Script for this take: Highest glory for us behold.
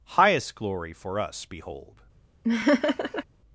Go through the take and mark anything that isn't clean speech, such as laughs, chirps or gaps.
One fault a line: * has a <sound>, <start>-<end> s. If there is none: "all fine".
* has a laugh, 2.4-3.2 s